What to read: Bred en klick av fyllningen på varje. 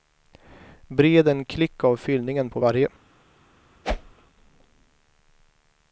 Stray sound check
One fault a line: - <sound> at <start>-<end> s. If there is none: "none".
- whoosh at 3.8-4.1 s